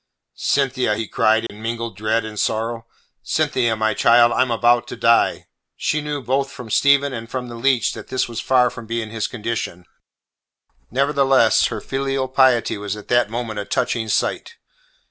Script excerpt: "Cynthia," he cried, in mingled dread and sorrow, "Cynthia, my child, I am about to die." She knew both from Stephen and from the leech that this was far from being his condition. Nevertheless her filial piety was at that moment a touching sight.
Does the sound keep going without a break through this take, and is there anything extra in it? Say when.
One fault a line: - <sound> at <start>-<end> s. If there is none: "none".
- dropout at 1.5-1.5 s